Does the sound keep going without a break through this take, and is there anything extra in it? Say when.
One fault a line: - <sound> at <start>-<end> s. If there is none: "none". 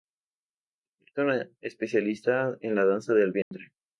- dropout at 3.4-3.5 s